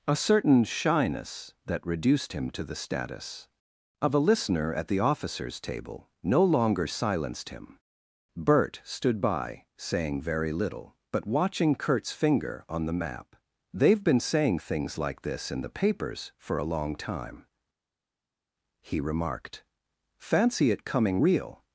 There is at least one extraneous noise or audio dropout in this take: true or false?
false